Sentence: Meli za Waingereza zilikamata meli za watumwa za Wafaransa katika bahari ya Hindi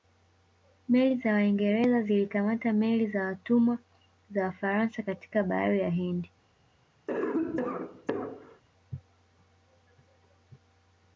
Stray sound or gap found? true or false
true